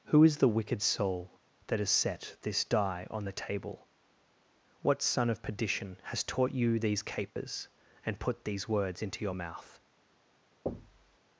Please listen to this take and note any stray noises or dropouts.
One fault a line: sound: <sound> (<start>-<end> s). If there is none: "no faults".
sound: dropout (7.3-7.4 s)
sound: thud (10.7-11.2 s)